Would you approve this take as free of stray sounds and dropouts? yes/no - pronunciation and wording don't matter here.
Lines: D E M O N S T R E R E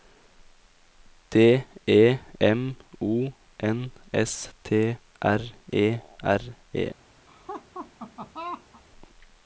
no